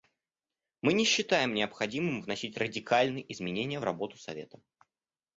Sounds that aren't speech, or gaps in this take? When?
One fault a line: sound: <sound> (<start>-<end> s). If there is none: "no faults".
no faults